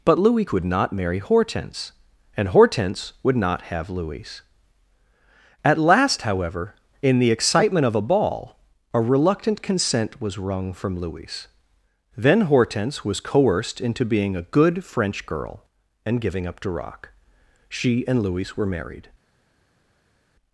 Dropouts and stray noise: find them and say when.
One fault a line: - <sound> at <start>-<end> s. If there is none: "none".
none